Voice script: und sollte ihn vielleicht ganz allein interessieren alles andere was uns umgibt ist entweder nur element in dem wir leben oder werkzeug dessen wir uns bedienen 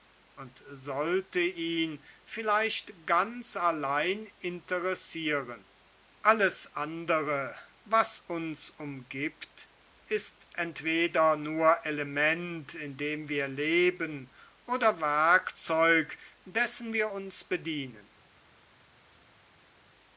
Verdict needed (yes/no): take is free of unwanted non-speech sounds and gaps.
yes